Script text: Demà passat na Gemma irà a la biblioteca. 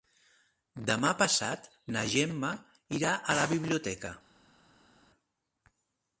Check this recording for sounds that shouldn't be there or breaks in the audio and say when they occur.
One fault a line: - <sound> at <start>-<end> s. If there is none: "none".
none